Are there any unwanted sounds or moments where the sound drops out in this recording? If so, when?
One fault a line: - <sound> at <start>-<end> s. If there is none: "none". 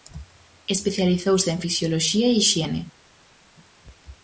none